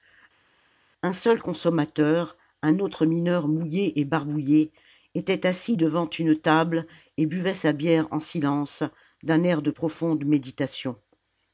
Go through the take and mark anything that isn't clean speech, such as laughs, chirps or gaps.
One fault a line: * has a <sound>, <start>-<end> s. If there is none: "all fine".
all fine